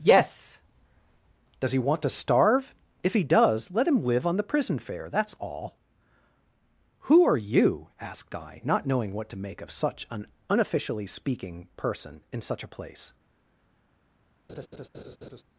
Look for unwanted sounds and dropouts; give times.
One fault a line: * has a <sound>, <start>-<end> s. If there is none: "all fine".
* has a laugh, 14.5-15.4 s